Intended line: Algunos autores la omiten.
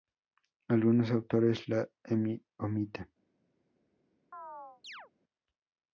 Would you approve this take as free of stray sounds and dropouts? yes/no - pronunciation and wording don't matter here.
no